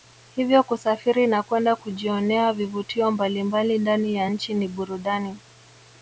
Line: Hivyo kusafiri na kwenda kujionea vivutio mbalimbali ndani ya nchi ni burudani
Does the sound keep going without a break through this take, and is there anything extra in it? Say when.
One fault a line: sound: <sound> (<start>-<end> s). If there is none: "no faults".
no faults